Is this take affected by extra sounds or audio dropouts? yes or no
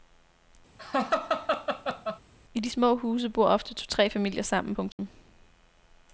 yes